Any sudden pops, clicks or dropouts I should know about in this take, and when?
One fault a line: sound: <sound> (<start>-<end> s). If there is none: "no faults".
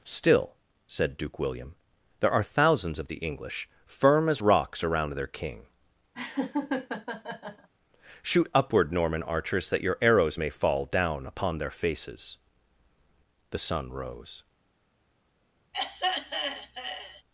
sound: laugh (6.1-7.7 s)
sound: throat clearing (15.7-17.2 s)